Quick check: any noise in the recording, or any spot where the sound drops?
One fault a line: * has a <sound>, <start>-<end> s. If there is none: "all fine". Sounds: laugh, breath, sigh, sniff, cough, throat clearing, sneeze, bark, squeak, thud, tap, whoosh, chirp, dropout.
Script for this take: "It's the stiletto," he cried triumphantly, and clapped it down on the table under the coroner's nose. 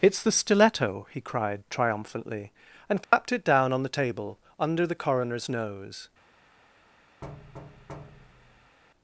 * has a dropout, 3.0-3.1 s
* has a thud, 7.2-8.8 s